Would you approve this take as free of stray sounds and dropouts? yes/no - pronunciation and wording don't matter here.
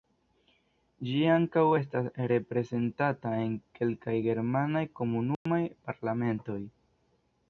no